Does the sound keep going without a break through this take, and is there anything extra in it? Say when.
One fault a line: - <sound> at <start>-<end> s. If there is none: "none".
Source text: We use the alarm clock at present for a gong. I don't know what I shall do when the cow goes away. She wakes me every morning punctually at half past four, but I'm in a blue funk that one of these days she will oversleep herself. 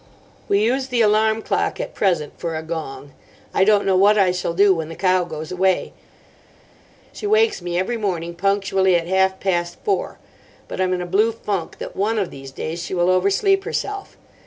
none